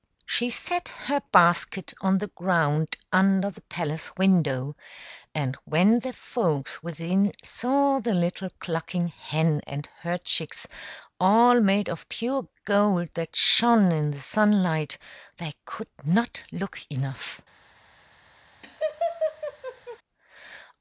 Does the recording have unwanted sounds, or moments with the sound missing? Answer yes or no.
yes